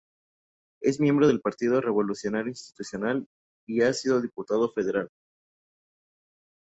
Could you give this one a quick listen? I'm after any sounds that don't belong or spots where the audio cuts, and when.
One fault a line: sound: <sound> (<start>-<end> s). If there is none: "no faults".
no faults